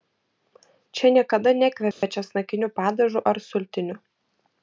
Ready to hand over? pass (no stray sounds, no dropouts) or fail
fail